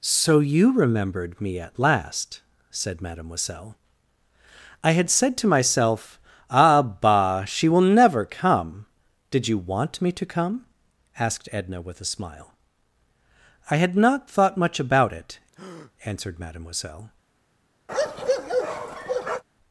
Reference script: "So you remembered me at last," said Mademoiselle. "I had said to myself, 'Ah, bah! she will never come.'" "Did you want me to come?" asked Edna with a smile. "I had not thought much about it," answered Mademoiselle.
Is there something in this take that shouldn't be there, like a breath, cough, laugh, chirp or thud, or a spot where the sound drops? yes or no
yes